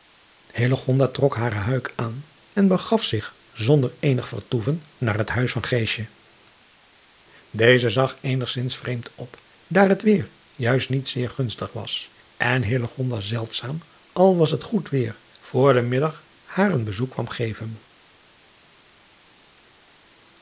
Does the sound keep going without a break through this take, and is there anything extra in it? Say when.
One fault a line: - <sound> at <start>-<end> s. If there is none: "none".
none